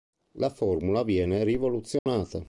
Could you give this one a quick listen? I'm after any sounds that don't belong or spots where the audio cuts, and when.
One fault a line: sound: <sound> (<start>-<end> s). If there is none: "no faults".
sound: dropout (2.0-2.1 s)